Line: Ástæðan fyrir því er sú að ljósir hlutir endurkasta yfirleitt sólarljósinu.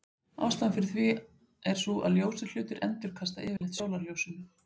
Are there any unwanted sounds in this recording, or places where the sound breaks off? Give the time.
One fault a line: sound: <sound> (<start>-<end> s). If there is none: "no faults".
sound: dropout (3.6-3.6 s)